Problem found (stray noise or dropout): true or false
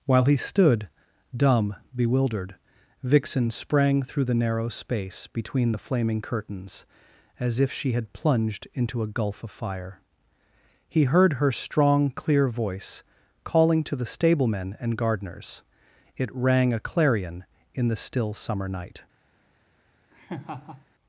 true